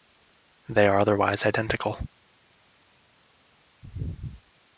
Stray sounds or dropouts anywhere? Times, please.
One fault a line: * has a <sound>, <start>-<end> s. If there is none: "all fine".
all fine